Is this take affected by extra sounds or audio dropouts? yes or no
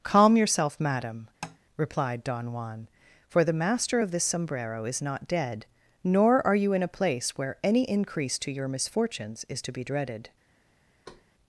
yes